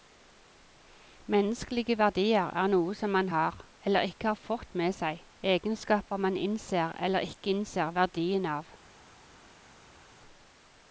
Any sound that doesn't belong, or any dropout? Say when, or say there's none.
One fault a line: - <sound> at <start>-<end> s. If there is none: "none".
none